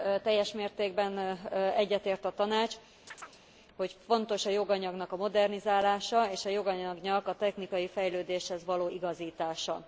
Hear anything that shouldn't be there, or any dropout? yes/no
yes